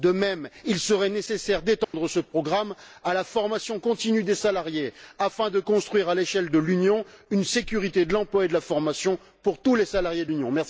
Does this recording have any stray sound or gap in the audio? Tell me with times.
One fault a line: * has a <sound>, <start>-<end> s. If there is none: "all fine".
* has a dropout, 1.8-1.9 s